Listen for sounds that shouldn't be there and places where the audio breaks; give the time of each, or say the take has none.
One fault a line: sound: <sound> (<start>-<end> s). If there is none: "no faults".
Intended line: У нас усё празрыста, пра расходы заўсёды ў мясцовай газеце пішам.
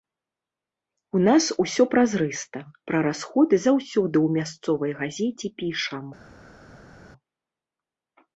no faults